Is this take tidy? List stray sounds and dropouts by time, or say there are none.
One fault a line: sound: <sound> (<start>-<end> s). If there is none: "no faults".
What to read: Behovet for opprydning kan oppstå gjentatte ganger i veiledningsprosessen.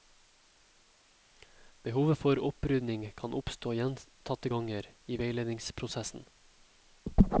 no faults